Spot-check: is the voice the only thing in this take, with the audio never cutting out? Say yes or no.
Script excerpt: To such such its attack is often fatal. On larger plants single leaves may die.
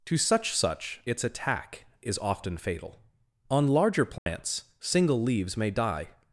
no